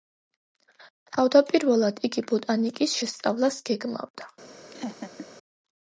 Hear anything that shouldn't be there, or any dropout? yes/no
yes